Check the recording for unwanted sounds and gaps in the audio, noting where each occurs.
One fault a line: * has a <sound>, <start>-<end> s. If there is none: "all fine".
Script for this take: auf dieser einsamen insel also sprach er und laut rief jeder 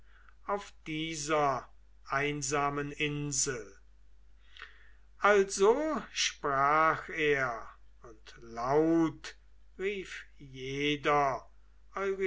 all fine